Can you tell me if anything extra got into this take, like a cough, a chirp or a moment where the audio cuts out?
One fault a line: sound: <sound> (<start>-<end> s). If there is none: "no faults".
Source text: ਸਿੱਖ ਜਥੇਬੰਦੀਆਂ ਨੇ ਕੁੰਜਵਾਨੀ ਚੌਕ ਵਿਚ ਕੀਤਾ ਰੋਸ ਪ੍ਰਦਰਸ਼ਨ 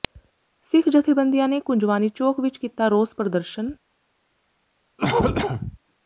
sound: cough (5.0-5.8 s)